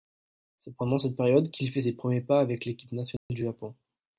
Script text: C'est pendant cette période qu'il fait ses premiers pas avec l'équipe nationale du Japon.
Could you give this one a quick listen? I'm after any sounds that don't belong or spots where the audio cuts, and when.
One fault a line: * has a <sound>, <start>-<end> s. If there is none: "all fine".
* has a dropout, 3.2-3.3 s